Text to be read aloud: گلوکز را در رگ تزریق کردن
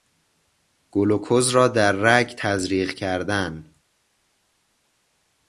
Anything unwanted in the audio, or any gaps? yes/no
no